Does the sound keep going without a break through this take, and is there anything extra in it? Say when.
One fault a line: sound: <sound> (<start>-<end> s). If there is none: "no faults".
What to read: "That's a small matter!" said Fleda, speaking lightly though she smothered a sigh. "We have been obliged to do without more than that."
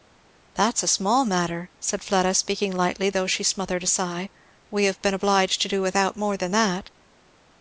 no faults